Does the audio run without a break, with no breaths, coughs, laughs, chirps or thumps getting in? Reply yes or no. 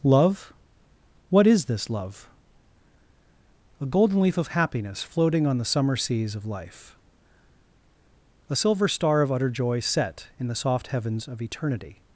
yes